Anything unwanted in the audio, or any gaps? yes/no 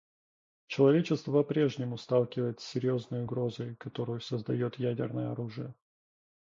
no